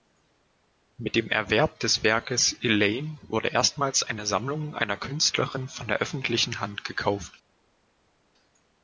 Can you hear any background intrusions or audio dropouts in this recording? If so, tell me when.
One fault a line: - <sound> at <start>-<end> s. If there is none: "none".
none